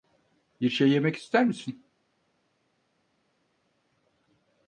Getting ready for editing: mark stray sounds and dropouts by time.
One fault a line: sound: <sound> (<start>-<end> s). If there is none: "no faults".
no faults